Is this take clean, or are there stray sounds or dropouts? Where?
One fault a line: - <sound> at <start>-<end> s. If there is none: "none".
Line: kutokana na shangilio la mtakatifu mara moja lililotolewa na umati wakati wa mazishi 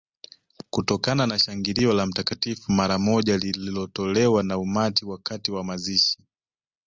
none